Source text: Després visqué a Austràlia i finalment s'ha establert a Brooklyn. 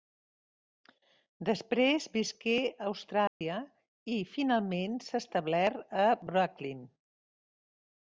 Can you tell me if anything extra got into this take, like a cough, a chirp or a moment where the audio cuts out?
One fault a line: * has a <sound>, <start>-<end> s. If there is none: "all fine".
* has a dropout, 3.3-3.4 s